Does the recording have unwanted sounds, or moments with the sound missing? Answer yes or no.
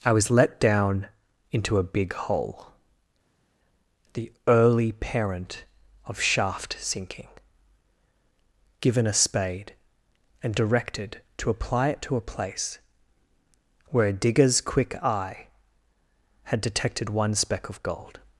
no